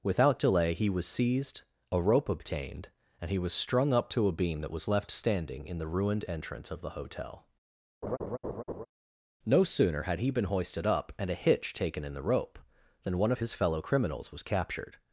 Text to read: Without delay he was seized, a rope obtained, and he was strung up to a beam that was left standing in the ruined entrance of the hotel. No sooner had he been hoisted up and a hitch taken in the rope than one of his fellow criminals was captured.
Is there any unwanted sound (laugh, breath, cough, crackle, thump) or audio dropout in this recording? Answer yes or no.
yes